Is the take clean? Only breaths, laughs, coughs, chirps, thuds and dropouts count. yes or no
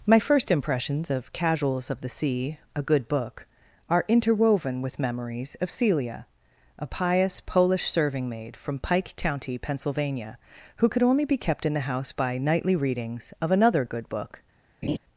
no